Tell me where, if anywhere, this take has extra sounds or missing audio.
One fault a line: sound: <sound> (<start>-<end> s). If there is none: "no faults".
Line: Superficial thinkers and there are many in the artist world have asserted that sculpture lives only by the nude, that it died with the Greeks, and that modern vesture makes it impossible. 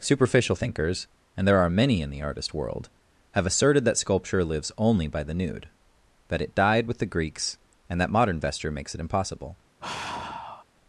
sound: sigh (9.8-10.6 s)